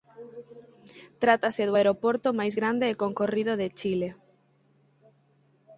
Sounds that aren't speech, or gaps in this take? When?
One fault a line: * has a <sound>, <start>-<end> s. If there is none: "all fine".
all fine